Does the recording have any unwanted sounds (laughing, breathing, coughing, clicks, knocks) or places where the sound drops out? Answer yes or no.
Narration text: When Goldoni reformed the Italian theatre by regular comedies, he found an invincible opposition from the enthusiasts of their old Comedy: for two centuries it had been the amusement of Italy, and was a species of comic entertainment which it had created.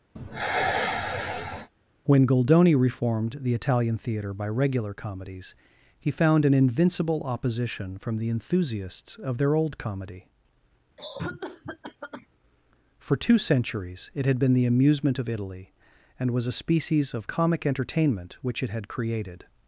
yes